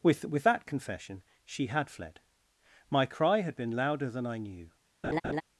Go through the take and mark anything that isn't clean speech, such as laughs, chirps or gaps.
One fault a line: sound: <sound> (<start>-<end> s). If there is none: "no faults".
sound: laugh (5.0-5.4 s)